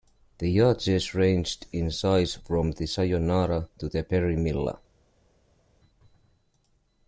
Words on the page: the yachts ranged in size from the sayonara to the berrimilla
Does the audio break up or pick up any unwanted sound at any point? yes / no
no